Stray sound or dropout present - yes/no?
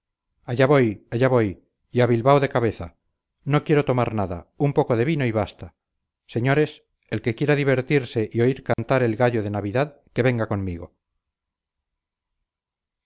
yes